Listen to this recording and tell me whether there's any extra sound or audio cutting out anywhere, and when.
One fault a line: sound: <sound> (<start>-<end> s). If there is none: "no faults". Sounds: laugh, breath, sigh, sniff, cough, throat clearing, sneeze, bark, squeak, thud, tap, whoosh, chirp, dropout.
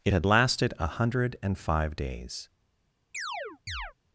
sound: chirp (3.1-3.9 s)